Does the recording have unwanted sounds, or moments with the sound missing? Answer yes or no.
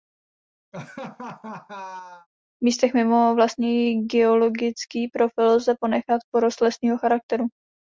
yes